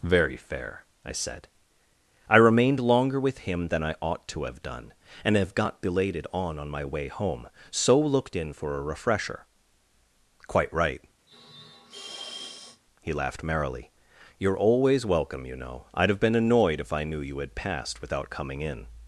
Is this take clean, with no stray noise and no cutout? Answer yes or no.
no